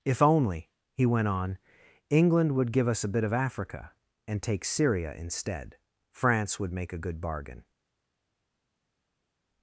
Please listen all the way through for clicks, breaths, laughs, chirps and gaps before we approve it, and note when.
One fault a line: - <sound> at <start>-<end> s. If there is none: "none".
none